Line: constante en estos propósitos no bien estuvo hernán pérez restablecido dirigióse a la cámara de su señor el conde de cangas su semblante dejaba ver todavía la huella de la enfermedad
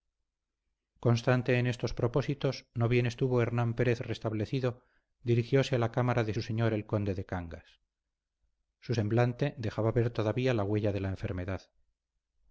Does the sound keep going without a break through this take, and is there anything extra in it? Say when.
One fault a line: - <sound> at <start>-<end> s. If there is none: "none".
none